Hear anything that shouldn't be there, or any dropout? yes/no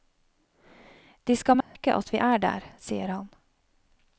yes